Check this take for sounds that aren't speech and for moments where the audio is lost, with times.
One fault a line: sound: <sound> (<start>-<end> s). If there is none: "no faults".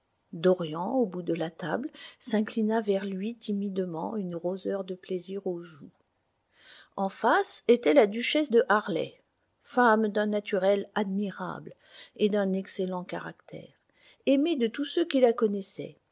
no faults